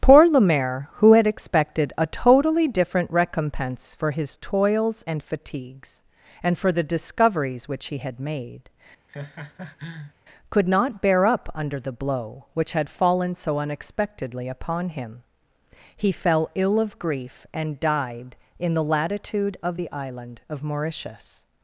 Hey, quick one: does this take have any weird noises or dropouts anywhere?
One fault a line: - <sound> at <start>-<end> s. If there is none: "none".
- laugh at 9.1-10.1 s